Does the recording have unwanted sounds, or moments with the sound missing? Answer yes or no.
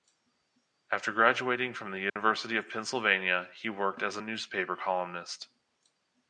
yes